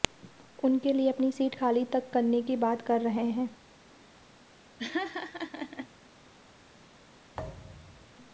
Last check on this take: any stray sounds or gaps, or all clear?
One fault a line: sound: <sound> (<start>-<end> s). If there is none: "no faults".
sound: laugh (4.8-5.9 s)
sound: thud (7.3-8.2 s)